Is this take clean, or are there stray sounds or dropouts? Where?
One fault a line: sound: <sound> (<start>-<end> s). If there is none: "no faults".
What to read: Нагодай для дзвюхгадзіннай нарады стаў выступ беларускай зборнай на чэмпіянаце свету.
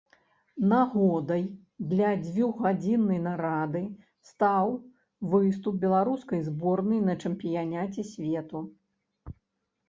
no faults